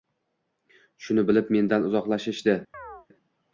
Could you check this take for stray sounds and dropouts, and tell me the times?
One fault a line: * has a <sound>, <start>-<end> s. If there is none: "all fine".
* has a chirp, 2.7-3.1 s